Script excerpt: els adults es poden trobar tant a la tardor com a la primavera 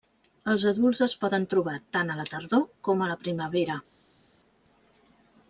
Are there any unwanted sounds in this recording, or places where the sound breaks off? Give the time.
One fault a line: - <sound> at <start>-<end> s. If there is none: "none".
none